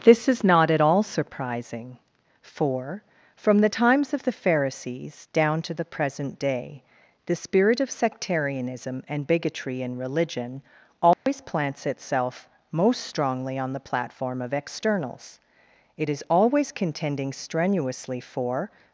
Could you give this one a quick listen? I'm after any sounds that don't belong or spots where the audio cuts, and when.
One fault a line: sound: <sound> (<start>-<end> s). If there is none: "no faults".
sound: dropout (11.1-11.3 s)